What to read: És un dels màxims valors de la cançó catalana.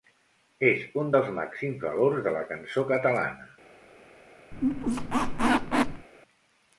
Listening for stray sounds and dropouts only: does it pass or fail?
fail